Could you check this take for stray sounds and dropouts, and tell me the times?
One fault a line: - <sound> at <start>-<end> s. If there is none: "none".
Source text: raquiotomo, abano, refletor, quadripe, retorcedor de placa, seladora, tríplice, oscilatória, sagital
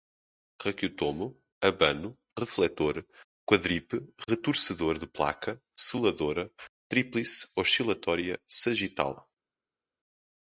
none